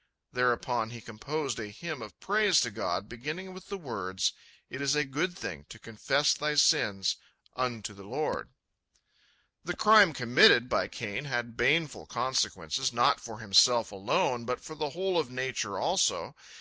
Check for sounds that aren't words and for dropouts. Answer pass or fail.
pass